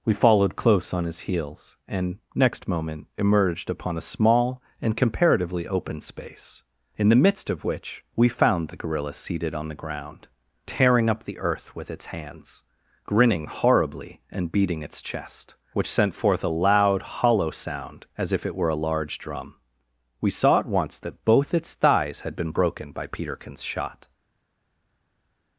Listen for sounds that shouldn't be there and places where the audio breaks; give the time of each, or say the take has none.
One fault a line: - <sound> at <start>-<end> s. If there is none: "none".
none